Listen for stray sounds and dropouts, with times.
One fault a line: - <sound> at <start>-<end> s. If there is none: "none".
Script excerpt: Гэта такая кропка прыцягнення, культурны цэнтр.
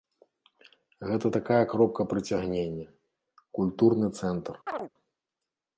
- chirp at 4.7-4.9 s